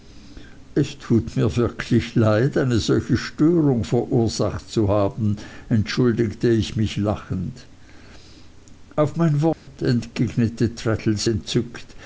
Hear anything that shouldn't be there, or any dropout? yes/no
yes